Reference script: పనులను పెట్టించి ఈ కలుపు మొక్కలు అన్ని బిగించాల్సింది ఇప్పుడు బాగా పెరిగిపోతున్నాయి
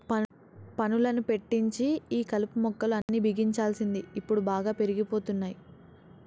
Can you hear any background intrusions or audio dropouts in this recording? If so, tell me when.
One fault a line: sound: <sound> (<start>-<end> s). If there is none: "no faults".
sound: dropout (3.0-3.1 s)